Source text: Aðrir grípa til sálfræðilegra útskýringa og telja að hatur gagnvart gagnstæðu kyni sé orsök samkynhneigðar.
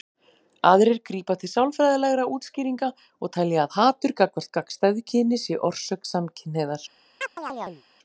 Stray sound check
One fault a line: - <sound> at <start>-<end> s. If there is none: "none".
- chirp at 7.2-7.8 s